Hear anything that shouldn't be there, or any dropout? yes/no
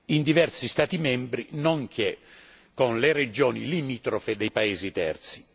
no